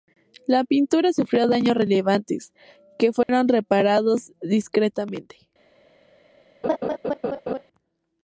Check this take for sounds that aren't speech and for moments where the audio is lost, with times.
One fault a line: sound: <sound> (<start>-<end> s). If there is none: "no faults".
sound: dropout (3.2-3.3 s)
sound: laugh (6.6-7.6 s)